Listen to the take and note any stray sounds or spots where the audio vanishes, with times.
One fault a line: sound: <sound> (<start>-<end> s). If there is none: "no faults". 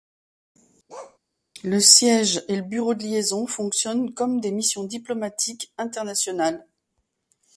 sound: bark (0.9-1.2 s)